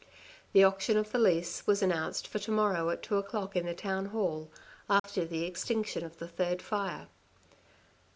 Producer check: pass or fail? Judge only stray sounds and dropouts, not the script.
fail